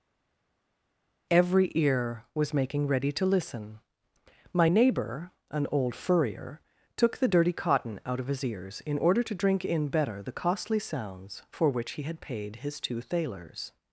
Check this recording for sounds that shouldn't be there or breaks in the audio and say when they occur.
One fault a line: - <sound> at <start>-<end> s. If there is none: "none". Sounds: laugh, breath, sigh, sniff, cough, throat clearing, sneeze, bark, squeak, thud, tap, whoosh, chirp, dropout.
none